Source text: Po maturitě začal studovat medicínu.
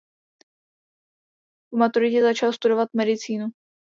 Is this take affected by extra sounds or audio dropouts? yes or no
no